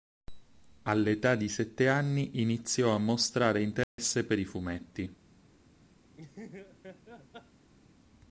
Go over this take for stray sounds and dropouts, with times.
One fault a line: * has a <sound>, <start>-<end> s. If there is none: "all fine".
* has a dropout, 3.8-4.0 s
* has a laugh, 6.2-7.7 s